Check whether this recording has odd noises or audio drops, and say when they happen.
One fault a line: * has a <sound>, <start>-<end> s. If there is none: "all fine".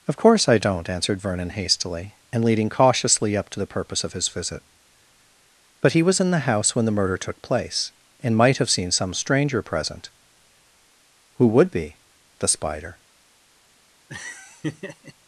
* has a laugh, 14.1-15.1 s